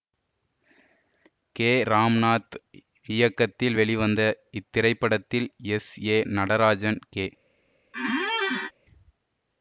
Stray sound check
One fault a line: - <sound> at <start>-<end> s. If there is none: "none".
- squeak at 7.9-8.7 s